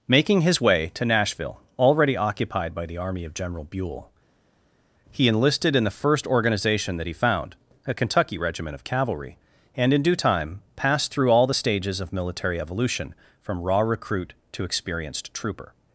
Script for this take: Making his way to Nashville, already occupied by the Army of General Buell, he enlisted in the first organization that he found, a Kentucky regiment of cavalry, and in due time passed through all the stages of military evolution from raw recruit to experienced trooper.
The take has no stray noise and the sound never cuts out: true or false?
true